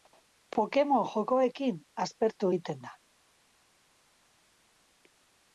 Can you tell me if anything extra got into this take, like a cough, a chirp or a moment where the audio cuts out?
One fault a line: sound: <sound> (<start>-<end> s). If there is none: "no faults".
no faults